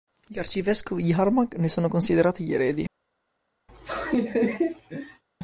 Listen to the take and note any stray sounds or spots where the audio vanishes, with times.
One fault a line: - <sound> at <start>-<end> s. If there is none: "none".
- laugh at 3.7-5.2 s